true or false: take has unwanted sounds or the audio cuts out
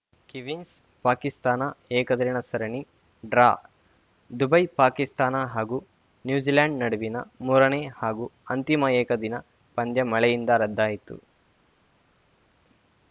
false